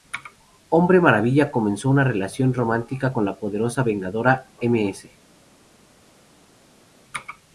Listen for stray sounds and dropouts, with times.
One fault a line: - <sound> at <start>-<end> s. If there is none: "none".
none